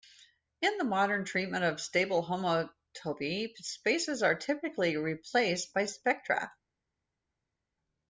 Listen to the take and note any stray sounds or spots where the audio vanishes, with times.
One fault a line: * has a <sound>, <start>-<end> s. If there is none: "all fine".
all fine